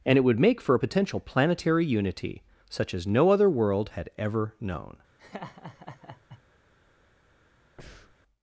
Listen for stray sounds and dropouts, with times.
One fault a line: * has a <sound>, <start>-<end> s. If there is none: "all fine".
* has a laugh, 5.2-6.4 s
* has a breath, 7.8-8.2 s